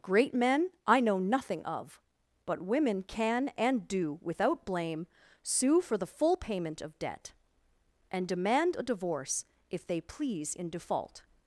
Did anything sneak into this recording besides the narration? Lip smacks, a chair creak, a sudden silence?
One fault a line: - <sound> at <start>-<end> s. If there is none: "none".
none